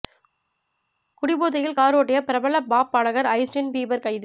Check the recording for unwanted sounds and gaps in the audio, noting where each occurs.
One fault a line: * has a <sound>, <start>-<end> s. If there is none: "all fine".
all fine